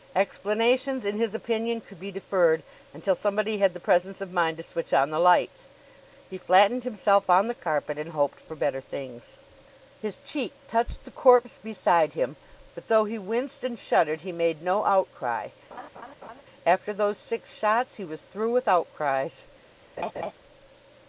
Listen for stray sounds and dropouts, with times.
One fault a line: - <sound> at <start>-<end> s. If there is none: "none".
- laugh at 15.7-16.4 s
- laugh at 20.0-20.3 s